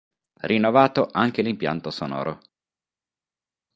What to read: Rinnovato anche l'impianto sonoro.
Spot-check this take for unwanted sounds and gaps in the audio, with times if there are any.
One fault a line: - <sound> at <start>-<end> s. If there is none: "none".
none